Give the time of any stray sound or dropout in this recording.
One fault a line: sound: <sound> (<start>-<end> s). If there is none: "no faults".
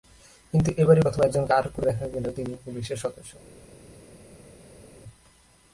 no faults